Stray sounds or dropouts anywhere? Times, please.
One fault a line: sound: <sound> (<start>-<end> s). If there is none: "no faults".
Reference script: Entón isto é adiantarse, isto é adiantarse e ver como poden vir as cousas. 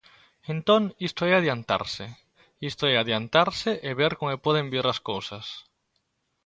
no faults